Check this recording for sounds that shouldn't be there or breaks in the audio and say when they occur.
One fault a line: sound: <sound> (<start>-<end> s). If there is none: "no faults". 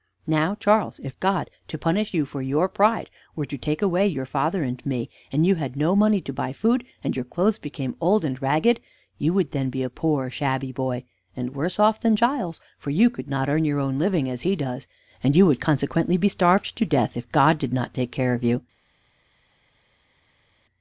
no faults